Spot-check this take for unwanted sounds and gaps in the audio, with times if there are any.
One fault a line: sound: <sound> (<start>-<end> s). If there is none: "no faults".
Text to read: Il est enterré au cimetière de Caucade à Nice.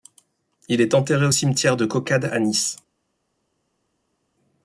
no faults